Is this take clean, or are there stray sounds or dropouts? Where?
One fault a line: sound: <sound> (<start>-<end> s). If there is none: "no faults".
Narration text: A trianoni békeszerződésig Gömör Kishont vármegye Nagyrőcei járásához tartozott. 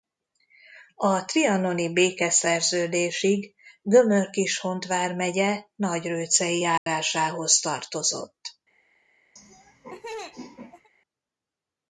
sound: dropout (6.8-6.9 s)
sound: laugh (9.4-10.9 s)